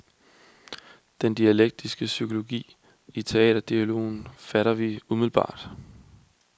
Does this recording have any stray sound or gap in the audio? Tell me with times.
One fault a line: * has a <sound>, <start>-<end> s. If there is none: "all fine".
all fine